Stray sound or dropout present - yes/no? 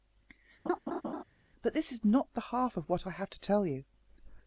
yes